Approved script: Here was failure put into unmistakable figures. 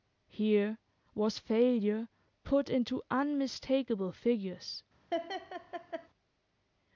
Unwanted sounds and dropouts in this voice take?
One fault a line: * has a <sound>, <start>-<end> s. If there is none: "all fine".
* has a laugh, 5.1-6.1 s